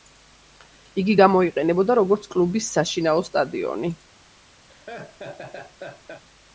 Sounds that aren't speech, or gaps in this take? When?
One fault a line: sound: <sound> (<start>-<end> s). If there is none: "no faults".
sound: laugh (4.7-6.2 s)